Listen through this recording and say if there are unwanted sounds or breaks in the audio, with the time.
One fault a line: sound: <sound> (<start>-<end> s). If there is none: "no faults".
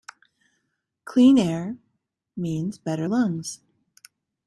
no faults